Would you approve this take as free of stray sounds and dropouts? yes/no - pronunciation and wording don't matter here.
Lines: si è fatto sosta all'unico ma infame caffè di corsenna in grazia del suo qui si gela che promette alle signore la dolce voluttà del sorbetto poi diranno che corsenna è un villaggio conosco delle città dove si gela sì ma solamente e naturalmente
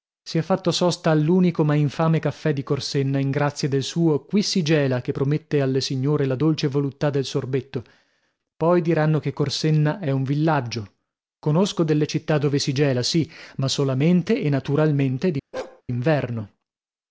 no